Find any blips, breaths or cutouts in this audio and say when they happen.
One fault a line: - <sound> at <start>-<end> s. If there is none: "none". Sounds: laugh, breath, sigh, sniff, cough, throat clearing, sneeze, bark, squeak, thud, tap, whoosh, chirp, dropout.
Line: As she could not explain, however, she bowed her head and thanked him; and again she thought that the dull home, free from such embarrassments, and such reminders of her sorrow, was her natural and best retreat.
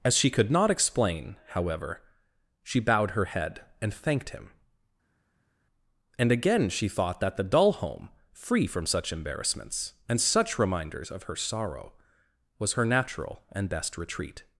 none